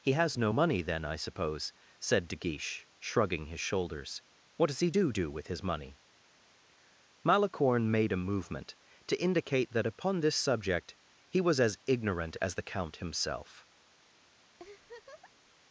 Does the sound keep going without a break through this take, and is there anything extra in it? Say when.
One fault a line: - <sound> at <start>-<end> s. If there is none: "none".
- laugh at 14.6-15.5 s